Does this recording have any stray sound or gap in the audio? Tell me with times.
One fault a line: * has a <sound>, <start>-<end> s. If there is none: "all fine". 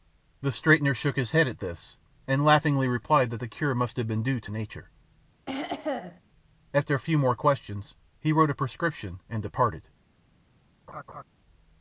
* has a throat clearing, 5.5-6.2 s
* has a laugh, 10.9-11.2 s